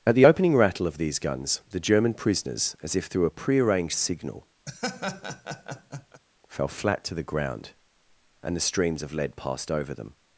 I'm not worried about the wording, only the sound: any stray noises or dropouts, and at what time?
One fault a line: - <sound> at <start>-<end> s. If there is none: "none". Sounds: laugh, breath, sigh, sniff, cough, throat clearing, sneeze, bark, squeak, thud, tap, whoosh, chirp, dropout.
- laugh at 4.7-6.2 s